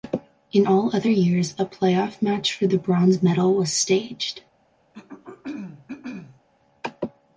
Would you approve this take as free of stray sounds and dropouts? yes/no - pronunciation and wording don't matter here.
no